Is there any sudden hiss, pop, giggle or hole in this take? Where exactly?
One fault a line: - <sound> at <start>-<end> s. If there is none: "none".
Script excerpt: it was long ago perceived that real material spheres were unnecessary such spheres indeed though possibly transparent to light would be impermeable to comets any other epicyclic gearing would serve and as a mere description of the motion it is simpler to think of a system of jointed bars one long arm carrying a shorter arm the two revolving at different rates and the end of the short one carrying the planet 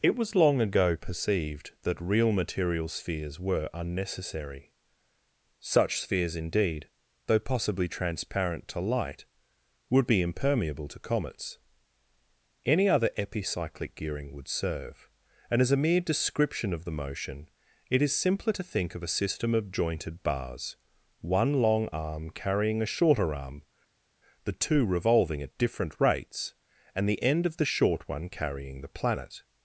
none